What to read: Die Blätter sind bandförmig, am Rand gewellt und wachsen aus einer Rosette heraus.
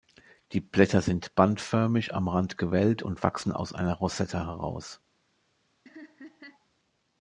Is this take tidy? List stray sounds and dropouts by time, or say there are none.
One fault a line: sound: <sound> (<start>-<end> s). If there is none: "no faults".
sound: laugh (5.9-6.7 s)